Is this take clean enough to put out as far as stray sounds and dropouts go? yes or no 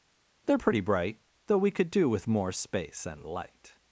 yes